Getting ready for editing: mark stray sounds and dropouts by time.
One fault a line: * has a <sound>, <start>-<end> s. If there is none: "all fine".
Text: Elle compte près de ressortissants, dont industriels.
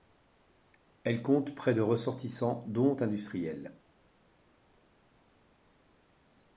all fine